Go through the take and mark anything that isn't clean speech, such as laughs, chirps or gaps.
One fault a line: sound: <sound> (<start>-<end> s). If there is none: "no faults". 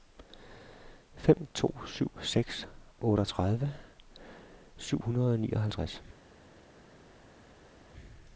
no faults